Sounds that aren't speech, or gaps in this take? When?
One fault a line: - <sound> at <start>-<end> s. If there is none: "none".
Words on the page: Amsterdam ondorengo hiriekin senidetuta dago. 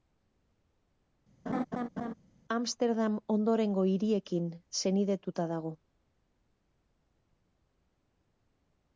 - laugh at 1.5-2.1 s